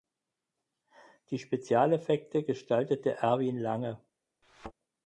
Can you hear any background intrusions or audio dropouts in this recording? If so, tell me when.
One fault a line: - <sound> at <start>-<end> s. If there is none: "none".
- thud at 4.4-4.7 s